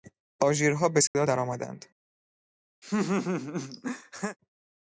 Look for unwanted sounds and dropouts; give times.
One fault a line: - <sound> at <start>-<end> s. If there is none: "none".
- dropout at 1.1-1.1 s
- laugh at 2.8-4.4 s